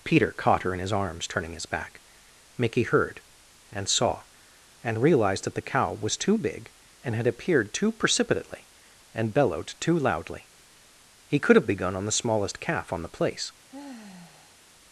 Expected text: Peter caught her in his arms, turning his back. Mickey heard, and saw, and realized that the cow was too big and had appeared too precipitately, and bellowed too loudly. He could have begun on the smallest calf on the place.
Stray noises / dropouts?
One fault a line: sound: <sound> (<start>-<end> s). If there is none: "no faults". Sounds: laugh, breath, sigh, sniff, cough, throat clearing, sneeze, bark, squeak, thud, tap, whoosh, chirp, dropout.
sound: sigh (13.7-14.6 s)